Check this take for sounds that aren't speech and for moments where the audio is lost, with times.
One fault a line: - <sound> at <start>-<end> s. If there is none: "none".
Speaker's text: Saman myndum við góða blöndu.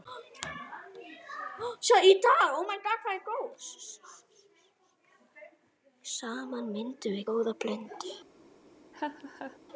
- laugh at 8.9-9.6 s